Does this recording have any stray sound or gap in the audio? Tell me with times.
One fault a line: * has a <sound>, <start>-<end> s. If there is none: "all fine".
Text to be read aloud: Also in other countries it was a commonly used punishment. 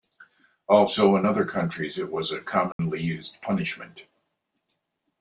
* has a dropout, 2.7-2.8 s